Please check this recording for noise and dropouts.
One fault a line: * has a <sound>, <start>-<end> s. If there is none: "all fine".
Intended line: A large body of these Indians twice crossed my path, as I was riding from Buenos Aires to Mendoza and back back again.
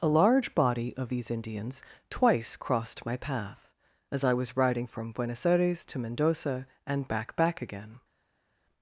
all fine